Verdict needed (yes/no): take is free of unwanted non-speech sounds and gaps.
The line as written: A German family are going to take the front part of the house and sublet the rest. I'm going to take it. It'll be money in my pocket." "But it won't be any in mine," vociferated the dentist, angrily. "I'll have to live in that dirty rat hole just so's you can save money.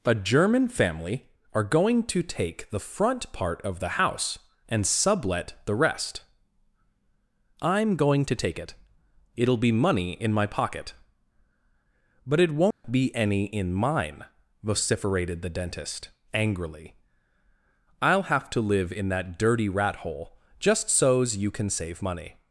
no